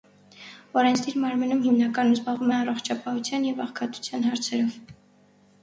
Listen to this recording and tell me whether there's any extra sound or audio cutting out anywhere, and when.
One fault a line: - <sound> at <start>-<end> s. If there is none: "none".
none